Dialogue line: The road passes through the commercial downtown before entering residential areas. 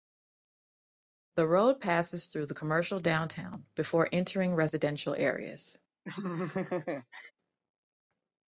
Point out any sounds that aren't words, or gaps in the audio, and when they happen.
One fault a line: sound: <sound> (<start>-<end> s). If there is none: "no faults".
sound: laugh (6.1-7.3 s)